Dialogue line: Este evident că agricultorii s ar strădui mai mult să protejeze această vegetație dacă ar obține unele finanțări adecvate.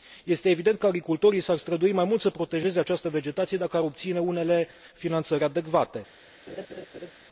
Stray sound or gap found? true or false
true